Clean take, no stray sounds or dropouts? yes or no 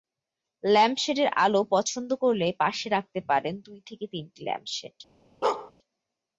no